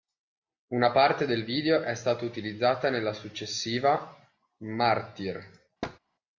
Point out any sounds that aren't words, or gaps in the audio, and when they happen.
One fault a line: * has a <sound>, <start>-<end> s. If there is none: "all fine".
* has a thud, 5.8-6.0 s